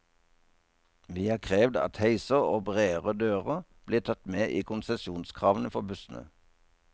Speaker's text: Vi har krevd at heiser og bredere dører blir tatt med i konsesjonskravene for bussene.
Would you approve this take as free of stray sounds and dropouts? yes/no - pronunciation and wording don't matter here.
yes